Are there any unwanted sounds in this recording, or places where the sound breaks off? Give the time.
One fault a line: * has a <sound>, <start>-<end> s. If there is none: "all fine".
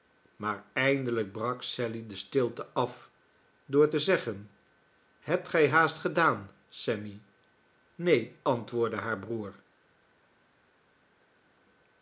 all fine